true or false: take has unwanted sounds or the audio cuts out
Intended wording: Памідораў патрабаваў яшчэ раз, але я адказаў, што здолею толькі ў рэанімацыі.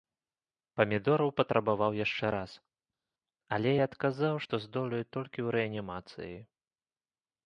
false